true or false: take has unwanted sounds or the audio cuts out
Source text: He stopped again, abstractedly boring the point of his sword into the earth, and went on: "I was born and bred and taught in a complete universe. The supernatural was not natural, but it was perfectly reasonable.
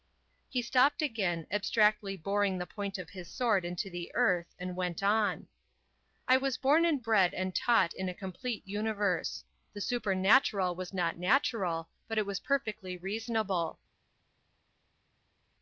false